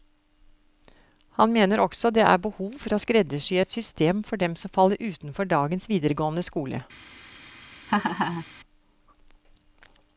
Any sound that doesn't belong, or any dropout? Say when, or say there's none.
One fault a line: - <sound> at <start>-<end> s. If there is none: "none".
- laugh at 7.9-8.5 s